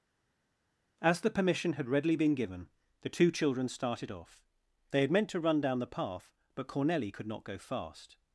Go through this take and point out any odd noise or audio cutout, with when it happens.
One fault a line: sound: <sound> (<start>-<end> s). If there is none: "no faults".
no faults